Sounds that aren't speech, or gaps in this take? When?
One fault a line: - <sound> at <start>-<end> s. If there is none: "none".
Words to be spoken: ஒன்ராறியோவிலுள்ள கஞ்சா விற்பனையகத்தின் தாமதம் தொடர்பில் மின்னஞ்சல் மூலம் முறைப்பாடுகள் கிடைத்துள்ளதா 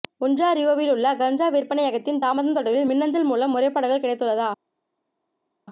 none